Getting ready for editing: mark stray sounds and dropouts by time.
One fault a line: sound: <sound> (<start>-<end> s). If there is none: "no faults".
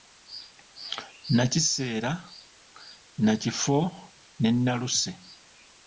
no faults